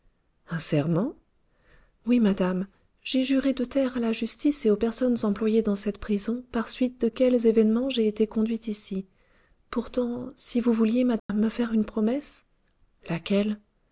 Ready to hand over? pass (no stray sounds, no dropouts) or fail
fail